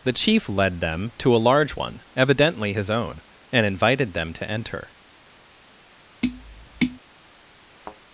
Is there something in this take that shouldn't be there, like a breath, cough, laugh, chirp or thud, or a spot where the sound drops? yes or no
yes